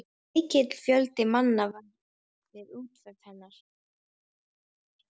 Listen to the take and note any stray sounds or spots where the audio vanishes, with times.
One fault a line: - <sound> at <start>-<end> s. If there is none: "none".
none